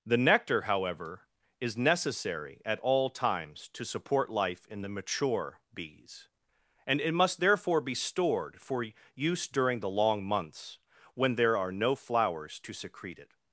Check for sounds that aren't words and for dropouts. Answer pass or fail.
pass